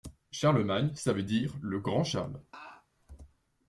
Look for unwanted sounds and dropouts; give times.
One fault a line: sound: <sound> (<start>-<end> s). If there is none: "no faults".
sound: laugh (2.5-2.9 s)